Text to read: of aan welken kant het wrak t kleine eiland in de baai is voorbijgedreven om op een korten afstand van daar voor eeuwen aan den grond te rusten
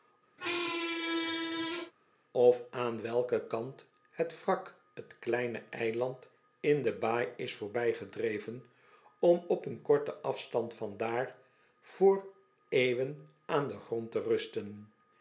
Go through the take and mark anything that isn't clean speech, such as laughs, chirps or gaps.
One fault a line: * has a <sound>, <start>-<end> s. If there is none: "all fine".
* has a squeak, 0.4-1.9 s